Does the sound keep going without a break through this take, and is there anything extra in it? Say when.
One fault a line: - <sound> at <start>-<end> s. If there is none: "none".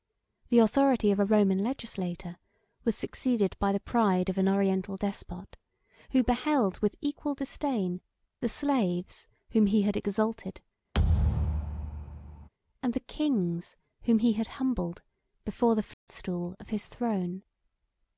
- thud at 10.9-12.5 s
- dropout at 15.9-16.1 s